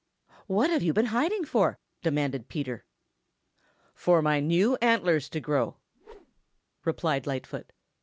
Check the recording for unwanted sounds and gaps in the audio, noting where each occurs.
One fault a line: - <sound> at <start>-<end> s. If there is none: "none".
- whoosh at 5.9-6.6 s